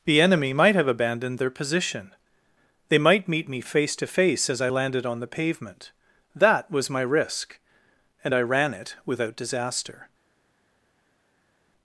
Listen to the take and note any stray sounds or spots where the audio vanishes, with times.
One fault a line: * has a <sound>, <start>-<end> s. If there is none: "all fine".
all fine